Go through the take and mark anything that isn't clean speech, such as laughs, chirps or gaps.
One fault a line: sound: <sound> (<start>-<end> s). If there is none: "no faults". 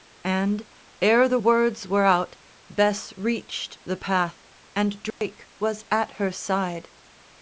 sound: dropout (5.1-5.2 s)